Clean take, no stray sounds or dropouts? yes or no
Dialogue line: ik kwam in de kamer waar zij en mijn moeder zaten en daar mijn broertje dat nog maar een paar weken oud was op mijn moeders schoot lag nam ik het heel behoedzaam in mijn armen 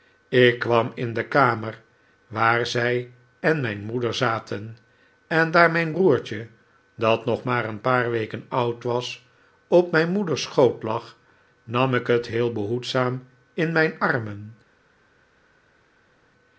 yes